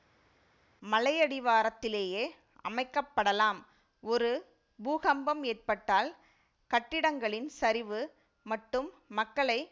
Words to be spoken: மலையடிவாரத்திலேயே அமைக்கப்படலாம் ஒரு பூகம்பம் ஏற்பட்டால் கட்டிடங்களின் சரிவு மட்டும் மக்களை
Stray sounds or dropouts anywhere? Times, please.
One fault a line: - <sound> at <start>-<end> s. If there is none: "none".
none